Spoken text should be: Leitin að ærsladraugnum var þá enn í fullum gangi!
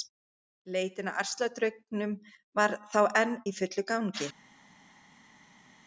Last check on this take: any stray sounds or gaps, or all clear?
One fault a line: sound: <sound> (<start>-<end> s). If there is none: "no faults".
no faults